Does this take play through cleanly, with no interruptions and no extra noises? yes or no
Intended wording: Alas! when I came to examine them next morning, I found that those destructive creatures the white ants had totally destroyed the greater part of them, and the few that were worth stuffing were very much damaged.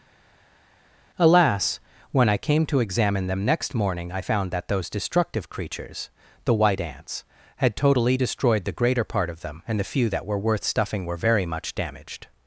yes